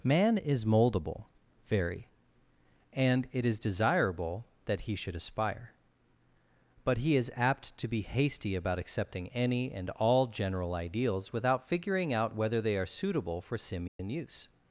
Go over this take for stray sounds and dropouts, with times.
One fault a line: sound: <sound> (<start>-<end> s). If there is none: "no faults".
sound: dropout (13.9-14.0 s)